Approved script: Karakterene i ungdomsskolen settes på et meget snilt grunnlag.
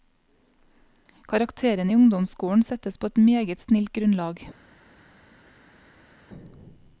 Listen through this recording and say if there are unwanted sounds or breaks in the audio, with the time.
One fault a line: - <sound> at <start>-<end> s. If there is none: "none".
none